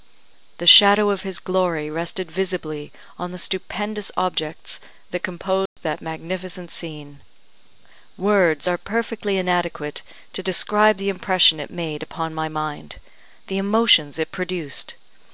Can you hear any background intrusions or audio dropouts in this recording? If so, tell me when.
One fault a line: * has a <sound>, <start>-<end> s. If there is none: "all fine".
* has a dropout, 5.7-5.8 s